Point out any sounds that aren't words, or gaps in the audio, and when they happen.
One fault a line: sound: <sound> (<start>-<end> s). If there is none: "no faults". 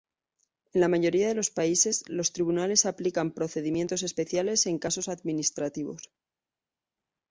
no faults